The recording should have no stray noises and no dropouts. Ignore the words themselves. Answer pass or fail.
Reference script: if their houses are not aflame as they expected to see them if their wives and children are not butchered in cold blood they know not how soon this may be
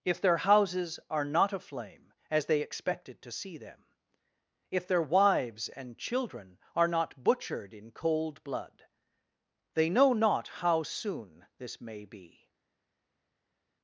pass